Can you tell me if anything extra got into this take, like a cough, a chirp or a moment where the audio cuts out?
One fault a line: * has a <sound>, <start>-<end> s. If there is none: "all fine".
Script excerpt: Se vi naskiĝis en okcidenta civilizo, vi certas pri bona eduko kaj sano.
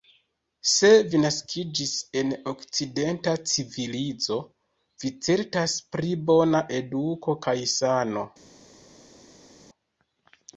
all fine